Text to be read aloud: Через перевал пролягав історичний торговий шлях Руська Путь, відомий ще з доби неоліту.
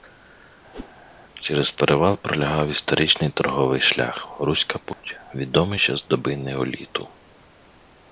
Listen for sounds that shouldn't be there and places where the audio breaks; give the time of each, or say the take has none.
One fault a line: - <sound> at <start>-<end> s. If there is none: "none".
- whoosh at 0.7-0.9 s
- dropout at 4.9-5.0 s